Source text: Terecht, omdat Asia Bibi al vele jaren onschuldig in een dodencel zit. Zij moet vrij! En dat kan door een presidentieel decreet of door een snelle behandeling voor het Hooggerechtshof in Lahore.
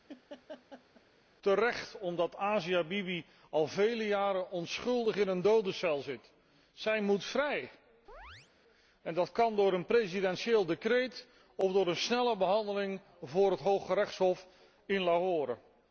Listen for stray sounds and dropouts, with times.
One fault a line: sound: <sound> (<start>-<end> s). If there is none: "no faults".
sound: laugh (0.1-1.0 s)
sound: chirp (8.1-8.5 s)